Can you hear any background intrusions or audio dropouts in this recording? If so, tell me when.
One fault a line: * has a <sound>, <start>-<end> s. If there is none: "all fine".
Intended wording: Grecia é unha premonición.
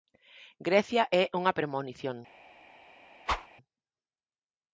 * has a whoosh, 3.3-3.5 s